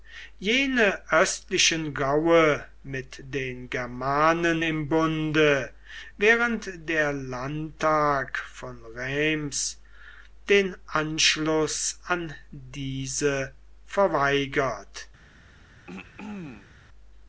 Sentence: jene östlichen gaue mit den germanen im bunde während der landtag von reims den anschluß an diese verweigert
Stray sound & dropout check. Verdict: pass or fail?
fail